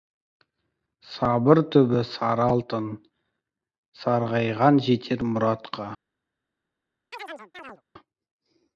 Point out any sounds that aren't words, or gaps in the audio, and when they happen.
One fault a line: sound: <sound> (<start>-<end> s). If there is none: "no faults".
sound: chirp (7.1-7.8 s)